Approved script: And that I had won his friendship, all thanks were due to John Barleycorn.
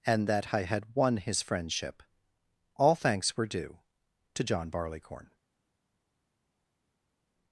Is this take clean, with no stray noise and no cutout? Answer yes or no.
yes